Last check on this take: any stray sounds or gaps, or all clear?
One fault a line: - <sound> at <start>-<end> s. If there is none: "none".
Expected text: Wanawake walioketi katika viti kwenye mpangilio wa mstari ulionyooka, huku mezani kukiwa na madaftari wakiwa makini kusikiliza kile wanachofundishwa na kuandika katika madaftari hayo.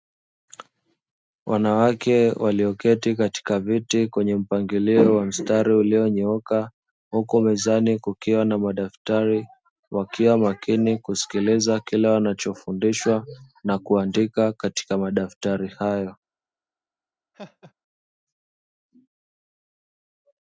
- laugh at 17.3-17.7 s